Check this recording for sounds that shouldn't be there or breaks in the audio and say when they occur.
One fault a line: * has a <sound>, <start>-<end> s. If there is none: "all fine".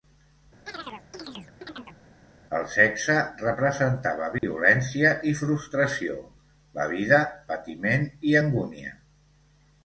* has a chirp, 0.7-2.0 s
* has a dropout, 4.4-4.4 s